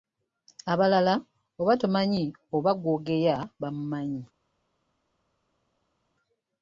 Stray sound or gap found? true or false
false